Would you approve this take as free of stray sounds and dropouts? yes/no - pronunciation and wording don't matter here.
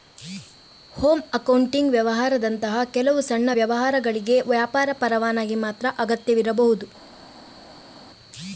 yes